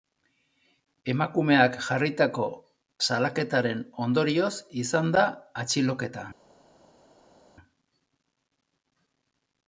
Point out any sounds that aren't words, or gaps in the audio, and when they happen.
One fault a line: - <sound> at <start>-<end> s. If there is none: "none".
none